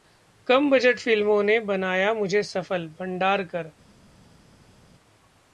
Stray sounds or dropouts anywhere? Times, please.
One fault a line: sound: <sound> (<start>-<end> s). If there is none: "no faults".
no faults